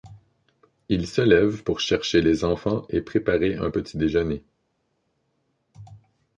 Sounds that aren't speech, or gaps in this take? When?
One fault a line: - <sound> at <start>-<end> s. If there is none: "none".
none